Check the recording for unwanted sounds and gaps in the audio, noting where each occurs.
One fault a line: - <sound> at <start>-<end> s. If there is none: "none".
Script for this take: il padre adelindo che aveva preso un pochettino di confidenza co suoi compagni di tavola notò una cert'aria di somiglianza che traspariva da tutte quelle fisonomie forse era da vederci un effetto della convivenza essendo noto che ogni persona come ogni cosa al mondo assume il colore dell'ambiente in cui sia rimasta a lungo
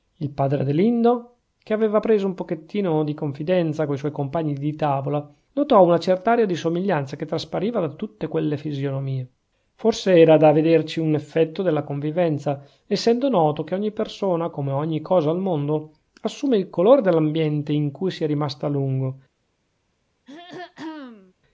- throat clearing at 20.3-21.3 s